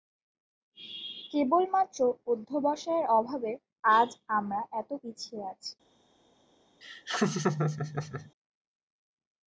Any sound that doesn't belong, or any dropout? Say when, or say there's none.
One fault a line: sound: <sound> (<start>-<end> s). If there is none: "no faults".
sound: laugh (6.8-8.3 s)